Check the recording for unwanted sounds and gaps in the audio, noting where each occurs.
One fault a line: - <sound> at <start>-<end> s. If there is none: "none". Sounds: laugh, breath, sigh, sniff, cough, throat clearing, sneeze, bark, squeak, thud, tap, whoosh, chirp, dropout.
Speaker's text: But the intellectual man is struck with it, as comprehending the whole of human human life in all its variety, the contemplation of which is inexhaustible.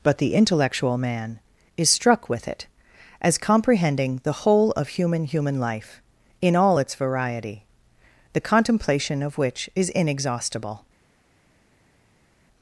none